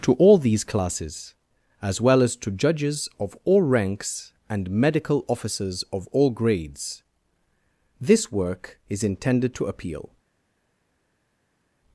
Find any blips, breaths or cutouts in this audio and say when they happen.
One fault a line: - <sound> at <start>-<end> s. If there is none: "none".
none